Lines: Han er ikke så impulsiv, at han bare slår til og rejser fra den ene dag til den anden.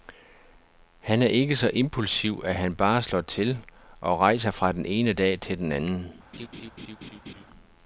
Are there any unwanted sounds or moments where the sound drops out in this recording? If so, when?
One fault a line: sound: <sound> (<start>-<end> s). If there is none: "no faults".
sound: laugh (6.3-7.5 s)